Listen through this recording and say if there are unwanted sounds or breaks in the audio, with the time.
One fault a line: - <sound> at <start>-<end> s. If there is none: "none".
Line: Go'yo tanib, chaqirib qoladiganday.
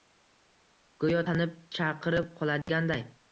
- dropout at 2.6-2.7 s